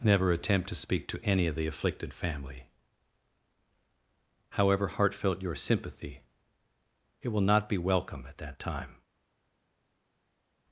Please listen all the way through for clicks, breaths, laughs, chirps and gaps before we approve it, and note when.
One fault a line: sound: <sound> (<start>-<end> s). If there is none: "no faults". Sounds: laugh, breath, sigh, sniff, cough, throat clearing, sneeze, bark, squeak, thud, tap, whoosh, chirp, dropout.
no faults